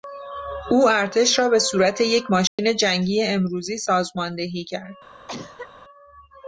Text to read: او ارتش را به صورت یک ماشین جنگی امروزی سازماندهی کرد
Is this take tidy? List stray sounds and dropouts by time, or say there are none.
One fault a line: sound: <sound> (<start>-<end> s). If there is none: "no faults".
sound: dropout (2.5-2.6 s)
sound: cough (5.3-5.7 s)